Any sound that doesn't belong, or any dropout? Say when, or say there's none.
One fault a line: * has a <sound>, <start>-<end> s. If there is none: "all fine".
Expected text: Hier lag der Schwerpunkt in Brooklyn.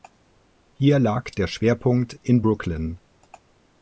all fine